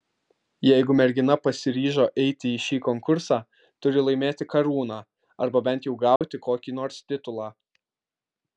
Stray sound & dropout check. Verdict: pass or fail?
fail